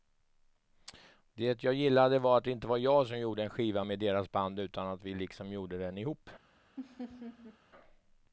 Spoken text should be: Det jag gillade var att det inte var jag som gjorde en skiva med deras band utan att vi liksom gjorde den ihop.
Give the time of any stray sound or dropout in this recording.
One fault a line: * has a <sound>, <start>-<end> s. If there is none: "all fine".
* has a laugh, 6.8-7.6 s